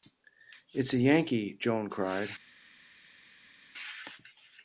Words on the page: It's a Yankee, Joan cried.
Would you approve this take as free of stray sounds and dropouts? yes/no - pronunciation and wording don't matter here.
yes